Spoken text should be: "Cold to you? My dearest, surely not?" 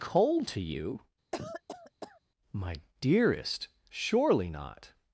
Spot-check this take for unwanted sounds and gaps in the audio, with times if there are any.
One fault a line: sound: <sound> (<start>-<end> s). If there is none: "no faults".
sound: cough (1.3-2.2 s)